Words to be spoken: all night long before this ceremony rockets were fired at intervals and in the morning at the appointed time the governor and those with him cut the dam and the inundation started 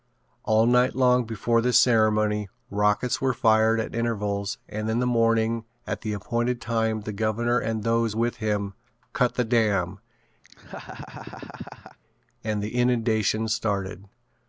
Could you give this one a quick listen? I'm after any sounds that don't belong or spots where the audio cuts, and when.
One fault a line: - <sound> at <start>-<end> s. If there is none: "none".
- laugh at 10.4-12.0 s